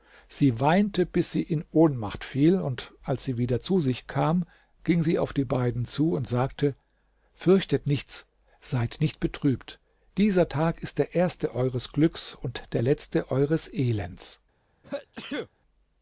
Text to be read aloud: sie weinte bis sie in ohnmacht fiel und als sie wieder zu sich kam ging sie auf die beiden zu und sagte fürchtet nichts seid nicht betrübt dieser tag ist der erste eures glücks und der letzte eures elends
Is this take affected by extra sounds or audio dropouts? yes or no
yes